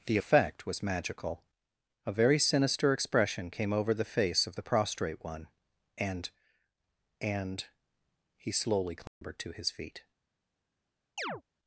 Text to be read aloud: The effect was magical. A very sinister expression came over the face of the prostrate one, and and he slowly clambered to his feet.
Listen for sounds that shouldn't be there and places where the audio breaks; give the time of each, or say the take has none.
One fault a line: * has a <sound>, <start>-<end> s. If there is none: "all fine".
* has a dropout, 9.1-9.2 s
* has a chirp, 11.2-11.4 s